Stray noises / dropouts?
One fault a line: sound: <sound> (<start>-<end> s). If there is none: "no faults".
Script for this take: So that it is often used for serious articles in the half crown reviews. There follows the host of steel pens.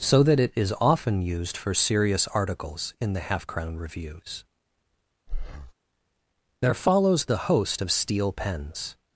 sound: breath (5.3-5.7 s)